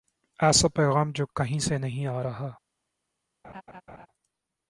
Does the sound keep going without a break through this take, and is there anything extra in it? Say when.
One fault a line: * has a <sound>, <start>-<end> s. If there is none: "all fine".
* has a laugh, 3.4-4.1 s